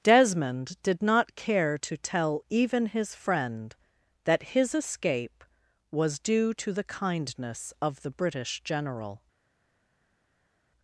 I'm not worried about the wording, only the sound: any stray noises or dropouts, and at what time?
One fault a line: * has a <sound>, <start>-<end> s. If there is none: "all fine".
all fine